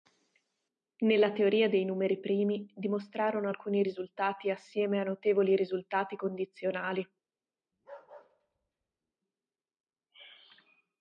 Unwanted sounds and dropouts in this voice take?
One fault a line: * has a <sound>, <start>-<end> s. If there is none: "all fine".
* has a bark, 7.7-9.1 s